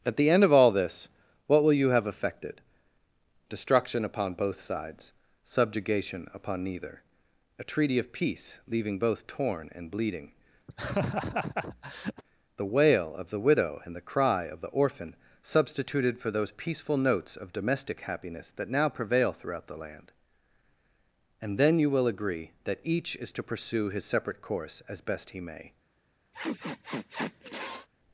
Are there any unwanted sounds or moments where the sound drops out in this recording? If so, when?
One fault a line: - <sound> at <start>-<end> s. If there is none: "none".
- laugh at 10.7-12.2 s
- sniff at 26.3-27.9 s